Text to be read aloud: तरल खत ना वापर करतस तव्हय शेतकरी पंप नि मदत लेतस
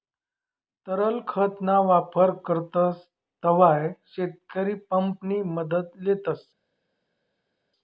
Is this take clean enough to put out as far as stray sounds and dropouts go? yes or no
yes